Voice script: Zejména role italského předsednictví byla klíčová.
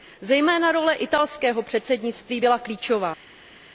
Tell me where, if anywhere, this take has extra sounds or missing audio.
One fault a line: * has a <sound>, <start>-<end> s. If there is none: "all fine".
all fine